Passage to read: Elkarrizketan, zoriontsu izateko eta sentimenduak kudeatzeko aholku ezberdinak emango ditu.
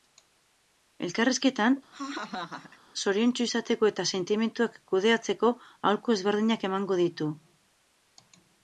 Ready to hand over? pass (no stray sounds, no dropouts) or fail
fail